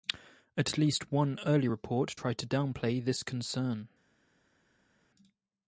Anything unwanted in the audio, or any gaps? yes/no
no